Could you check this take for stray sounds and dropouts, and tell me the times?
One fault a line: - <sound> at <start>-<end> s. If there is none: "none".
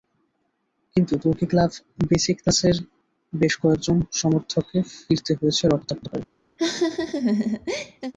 - laugh at 6.6-8.1 s